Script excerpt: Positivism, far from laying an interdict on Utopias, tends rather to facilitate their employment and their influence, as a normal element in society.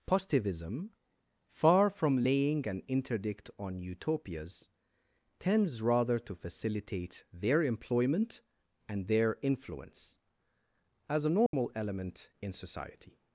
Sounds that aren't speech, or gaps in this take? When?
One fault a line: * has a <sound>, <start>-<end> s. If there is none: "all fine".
* has a dropout, 11.5-11.5 s